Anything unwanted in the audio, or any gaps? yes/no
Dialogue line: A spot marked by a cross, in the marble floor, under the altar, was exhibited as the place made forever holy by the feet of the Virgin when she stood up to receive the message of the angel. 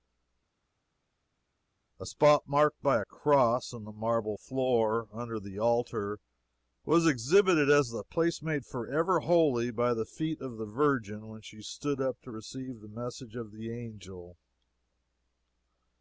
no